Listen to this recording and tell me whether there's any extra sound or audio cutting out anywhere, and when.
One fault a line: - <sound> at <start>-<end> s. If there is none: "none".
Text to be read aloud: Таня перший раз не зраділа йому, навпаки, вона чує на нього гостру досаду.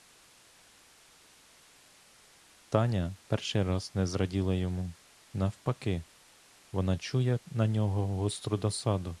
none